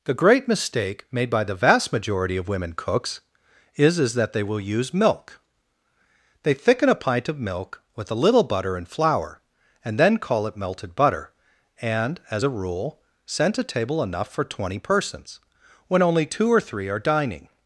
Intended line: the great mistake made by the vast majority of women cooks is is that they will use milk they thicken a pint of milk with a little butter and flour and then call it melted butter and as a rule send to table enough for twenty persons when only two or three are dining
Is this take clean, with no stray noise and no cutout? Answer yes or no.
yes